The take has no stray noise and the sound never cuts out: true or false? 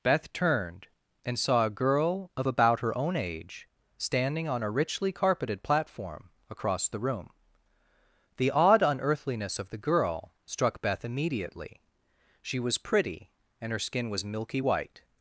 true